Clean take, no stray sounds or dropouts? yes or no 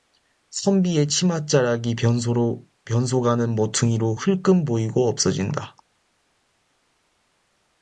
yes